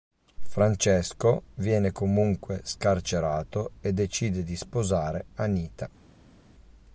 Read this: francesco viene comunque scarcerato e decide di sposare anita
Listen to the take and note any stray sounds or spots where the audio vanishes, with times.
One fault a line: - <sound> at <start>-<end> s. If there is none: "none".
none